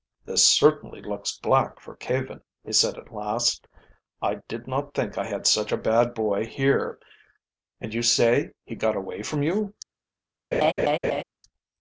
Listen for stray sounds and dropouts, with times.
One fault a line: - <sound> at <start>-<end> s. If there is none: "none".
- laugh at 10.5-11.2 s